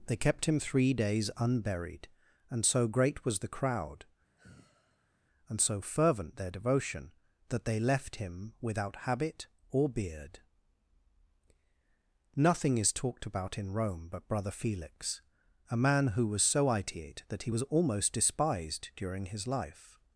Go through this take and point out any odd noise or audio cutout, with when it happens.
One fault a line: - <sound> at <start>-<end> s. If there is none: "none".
- sigh at 4.3-5.2 s